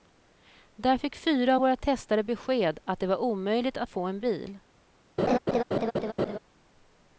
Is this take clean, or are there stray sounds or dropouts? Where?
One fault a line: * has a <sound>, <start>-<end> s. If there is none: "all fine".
* has a laugh, 5.2-6.4 s